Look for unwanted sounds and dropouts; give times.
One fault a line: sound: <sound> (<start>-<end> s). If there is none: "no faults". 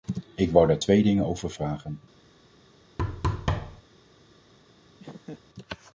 sound: thud (3.0-3.8 s)
sound: laugh (5.0-5.4 s)